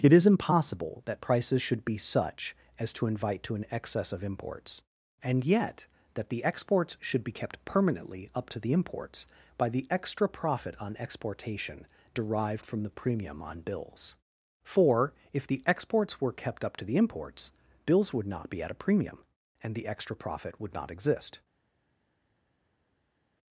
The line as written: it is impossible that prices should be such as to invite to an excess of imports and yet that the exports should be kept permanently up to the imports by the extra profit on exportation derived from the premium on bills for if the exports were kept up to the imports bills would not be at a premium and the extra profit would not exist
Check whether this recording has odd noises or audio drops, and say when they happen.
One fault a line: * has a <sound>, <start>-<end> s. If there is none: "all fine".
all fine